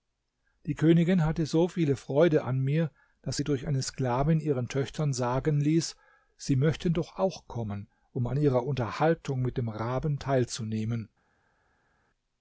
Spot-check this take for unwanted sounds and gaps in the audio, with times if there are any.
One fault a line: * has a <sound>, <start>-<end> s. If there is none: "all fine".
all fine